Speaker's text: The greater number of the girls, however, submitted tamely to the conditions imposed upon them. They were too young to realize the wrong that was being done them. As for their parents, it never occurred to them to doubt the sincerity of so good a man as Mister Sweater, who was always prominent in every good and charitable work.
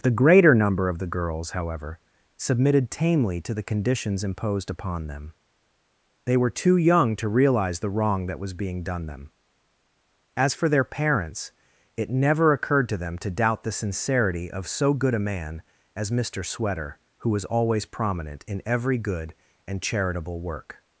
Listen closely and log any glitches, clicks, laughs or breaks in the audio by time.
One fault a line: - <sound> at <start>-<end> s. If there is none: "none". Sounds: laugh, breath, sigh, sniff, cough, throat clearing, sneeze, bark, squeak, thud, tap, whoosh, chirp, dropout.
none